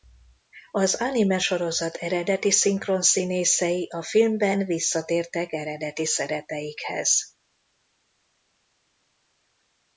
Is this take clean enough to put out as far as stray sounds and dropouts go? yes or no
yes